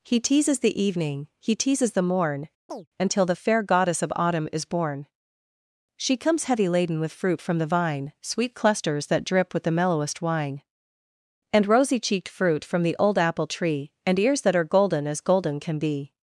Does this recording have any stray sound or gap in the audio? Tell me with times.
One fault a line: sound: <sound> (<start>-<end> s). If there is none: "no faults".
sound: chirp (2.7-2.9 s)